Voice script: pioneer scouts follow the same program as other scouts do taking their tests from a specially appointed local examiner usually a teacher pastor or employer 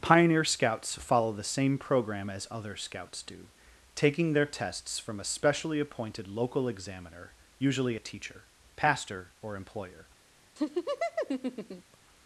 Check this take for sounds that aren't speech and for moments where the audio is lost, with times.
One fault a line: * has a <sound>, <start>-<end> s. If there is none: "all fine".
* has a laugh, 10.6-12.0 s